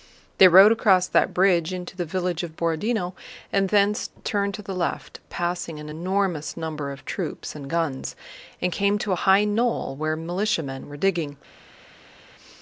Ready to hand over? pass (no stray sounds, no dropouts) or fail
pass